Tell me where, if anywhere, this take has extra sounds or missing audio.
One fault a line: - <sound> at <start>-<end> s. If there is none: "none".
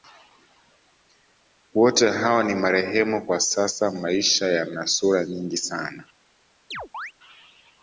- chirp at 6.7-7.1 s